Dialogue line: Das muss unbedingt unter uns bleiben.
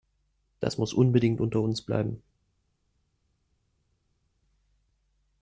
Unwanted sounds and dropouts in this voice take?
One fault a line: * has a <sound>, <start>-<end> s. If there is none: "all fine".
all fine